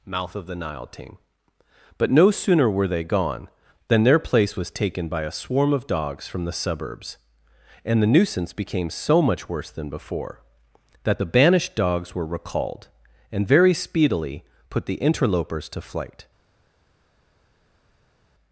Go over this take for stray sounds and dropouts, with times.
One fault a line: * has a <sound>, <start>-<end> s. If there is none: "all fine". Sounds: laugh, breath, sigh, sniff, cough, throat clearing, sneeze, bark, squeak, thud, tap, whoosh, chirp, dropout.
all fine